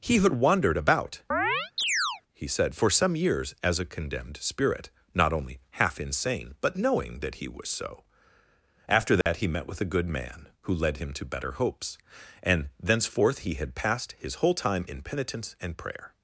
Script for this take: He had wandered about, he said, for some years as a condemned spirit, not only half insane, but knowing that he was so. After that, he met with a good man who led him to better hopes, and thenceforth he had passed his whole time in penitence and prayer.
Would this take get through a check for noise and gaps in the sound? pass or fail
fail